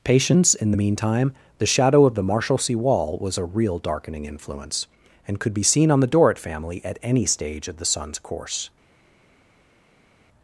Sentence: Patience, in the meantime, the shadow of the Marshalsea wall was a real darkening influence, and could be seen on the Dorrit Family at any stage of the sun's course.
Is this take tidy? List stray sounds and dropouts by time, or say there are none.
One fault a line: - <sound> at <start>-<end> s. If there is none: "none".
none